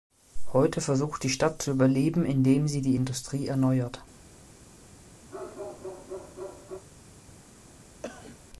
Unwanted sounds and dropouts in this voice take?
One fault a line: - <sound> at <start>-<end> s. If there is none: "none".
- bark at 5.3-6.8 s
- cough at 8.0-8.4 s